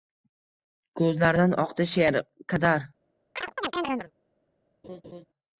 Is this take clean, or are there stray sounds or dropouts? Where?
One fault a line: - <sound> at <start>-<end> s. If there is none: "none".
- chirp at 3.4-4.1 s
- laugh at 4.8-5.3 s